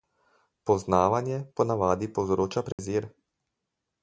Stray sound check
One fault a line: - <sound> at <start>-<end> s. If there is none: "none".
- dropout at 2.7-2.8 s